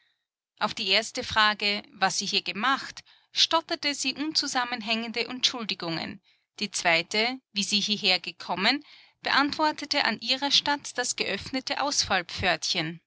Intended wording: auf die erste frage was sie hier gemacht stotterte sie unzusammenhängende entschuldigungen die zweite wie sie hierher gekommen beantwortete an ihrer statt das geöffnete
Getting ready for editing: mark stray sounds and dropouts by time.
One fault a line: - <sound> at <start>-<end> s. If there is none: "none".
none